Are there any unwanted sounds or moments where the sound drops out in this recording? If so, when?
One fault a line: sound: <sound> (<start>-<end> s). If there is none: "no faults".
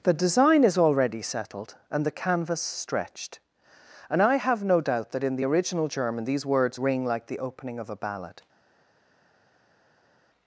no faults